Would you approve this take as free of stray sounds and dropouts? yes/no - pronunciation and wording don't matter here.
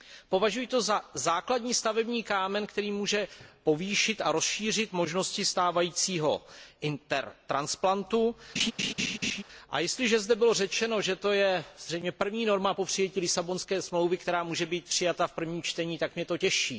no